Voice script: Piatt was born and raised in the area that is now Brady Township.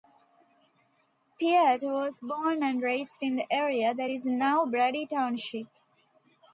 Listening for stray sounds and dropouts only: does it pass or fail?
pass